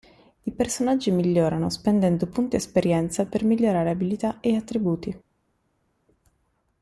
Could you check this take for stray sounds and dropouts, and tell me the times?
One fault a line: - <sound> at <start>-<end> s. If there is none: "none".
none